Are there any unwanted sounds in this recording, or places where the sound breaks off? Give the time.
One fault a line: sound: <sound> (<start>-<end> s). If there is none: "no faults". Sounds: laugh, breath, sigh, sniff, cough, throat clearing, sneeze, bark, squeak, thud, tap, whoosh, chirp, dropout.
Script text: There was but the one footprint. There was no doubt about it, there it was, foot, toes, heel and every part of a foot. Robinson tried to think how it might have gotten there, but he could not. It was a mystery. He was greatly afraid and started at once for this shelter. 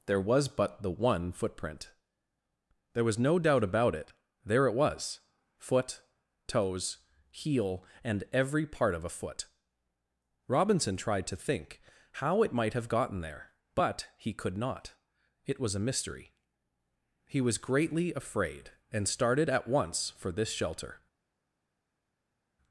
no faults